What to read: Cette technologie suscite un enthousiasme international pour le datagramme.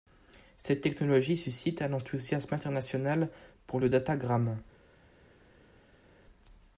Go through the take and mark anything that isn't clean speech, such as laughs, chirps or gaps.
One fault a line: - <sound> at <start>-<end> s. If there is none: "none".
none